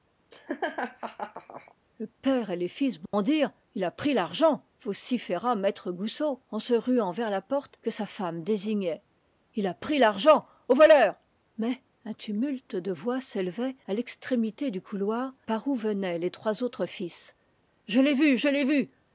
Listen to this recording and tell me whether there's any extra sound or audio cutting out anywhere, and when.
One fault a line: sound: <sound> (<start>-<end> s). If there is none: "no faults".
sound: laugh (0.3-1.7 s)
sound: dropout (3.1-3.1 s)